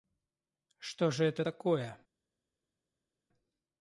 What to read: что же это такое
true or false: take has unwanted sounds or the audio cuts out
false